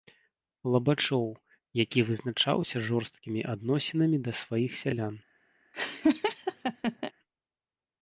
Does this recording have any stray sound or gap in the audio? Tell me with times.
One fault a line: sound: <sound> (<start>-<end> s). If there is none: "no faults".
sound: laugh (5.7-7.1 s)